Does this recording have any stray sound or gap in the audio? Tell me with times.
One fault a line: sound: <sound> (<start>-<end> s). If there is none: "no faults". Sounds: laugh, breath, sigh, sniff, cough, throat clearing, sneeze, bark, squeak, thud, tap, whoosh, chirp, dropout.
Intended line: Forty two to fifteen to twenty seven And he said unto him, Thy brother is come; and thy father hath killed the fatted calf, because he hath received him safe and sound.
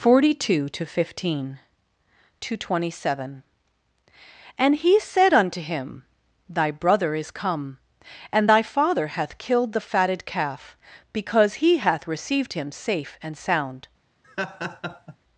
sound: laugh (14.2-15.2 s)